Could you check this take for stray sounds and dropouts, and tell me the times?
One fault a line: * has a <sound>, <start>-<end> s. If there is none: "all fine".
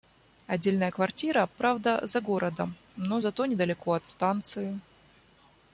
all fine